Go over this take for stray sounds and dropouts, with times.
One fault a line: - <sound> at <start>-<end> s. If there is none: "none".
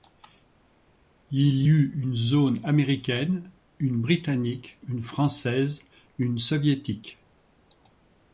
none